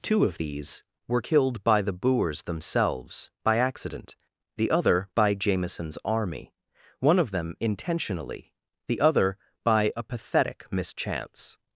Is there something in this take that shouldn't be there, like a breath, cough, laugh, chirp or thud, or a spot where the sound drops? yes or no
no